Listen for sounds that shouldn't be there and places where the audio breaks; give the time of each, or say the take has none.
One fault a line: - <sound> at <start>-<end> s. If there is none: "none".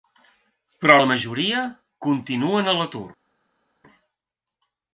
none